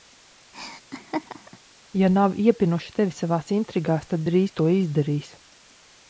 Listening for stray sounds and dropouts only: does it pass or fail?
fail